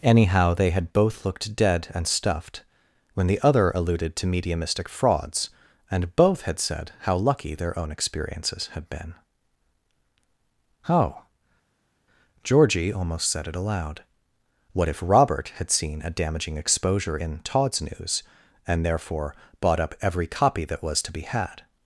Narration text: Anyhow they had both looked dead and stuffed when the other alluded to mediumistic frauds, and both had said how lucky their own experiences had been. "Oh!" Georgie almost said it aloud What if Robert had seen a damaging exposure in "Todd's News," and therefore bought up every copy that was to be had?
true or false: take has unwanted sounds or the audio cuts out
false